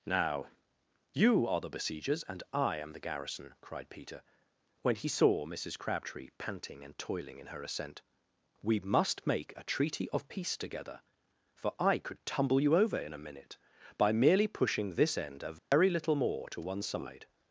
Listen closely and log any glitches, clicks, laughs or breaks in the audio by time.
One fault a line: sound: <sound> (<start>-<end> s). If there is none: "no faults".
sound: dropout (15.6-15.7 s)